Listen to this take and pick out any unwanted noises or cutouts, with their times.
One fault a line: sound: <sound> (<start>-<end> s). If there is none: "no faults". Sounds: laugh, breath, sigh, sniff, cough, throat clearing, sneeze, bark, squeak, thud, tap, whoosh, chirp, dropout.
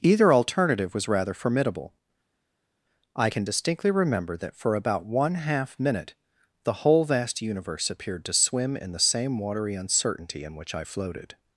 no faults